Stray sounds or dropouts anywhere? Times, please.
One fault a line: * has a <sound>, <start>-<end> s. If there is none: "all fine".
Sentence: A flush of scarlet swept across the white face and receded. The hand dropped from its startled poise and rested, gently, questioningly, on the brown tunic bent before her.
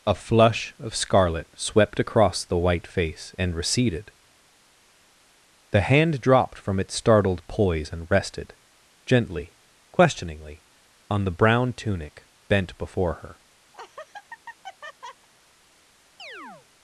* has a laugh, 13.7-15.3 s
* has a chirp, 16.2-16.7 s